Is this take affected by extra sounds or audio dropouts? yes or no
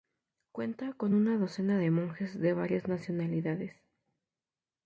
no